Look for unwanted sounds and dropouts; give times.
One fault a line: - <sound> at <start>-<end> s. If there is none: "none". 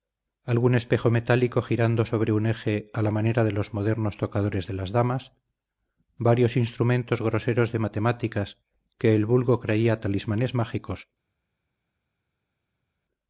none